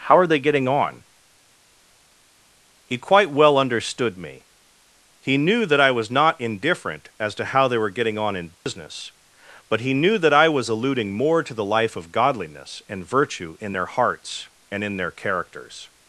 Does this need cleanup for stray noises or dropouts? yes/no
yes